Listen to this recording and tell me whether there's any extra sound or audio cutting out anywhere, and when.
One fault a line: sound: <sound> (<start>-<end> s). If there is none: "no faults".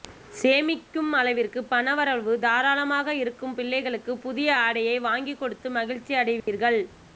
sound: dropout (6.4-6.5 s)